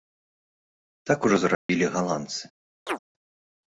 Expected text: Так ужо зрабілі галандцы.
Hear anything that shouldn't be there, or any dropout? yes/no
yes